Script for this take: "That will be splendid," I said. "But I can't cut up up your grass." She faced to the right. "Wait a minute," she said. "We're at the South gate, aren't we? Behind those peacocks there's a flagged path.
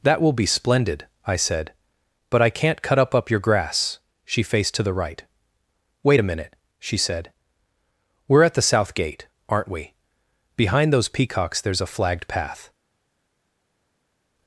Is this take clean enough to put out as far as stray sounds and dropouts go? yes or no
yes